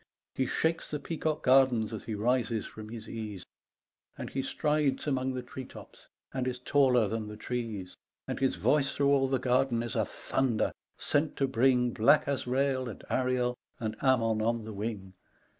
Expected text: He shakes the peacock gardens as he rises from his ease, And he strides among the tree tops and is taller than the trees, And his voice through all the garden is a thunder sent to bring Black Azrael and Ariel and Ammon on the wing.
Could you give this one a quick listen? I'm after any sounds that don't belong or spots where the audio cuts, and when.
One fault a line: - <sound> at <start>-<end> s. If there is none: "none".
none